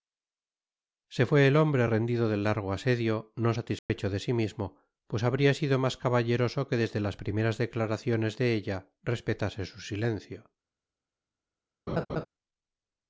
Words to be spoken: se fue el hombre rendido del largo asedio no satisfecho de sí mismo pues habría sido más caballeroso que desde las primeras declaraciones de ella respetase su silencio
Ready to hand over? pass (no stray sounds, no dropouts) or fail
fail